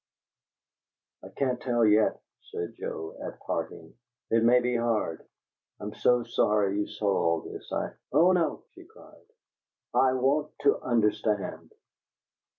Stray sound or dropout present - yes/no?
no